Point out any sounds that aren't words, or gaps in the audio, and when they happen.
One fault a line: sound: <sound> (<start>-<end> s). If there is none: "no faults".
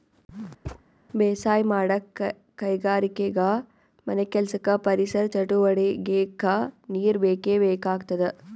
sound: thud (0.6-0.8 s)